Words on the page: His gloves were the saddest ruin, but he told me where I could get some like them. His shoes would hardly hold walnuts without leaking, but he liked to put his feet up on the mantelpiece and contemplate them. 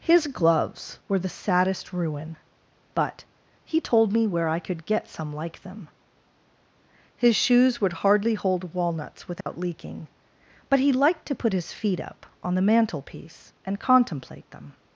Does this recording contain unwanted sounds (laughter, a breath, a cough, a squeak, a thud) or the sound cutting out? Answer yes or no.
yes